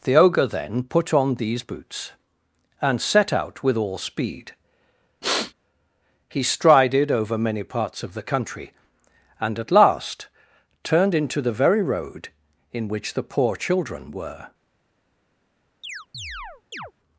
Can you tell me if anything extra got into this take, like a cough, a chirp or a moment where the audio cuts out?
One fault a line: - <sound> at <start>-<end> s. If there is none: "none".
- sniff at 5.2-5.5 s
- chirp at 15.8-16.9 s